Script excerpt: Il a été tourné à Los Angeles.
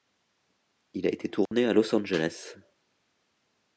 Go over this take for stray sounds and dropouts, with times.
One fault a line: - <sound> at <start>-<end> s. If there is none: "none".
- dropout at 1.5-1.5 s